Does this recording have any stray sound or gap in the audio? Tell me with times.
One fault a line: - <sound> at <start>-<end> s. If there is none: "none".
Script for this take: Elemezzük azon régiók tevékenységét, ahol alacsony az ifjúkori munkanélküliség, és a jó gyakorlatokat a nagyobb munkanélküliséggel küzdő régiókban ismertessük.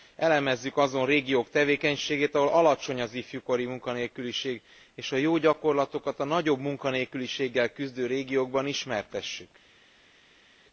none